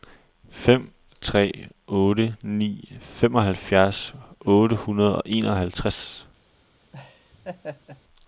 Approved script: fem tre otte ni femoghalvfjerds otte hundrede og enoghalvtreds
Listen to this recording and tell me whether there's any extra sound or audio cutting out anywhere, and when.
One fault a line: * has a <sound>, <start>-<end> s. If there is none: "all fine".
* has a laugh, 6.9-8.0 s